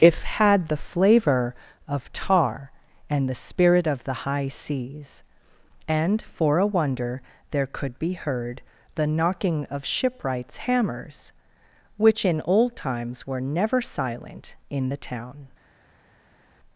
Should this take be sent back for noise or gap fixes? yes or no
no